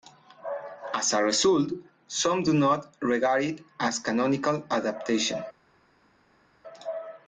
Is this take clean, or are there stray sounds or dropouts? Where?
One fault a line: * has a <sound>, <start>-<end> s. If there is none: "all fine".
all fine